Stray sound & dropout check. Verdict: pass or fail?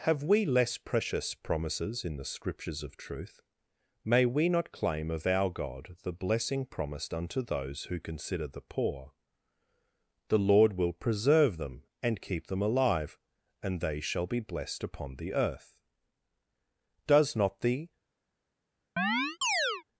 fail